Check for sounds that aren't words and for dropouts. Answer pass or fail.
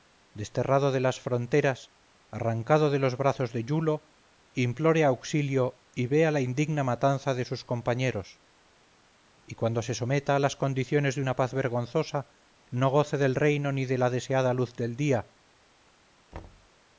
fail